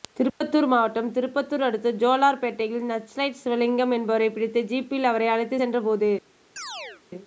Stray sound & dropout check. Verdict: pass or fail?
fail